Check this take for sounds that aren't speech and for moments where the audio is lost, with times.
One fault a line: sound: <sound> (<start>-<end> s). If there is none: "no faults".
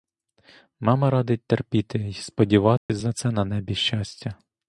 sound: dropout (2.8-2.9 s)